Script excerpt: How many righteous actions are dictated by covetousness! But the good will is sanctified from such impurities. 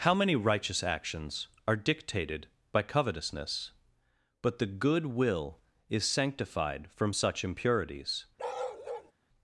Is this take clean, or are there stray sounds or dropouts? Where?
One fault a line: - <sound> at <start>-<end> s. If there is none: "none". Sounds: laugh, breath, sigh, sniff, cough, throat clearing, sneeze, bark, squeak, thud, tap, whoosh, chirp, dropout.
- bark at 8.4-9.1 s